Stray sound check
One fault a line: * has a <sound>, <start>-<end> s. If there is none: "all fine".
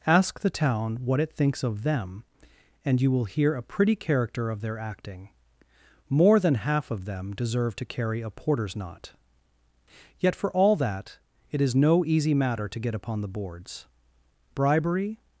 all fine